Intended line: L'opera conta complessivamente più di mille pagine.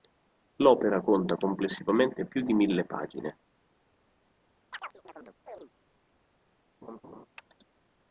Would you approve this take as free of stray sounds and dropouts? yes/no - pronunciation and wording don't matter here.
no